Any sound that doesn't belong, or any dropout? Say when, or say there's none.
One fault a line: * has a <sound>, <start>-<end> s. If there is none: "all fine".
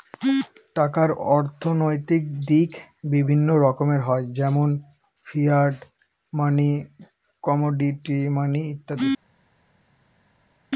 all fine